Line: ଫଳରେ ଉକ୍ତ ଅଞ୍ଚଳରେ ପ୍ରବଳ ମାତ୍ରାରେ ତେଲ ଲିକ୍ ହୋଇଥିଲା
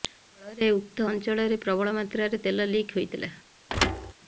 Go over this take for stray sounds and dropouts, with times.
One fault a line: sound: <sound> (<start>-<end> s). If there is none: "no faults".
sound: thud (3.7-4.1 s)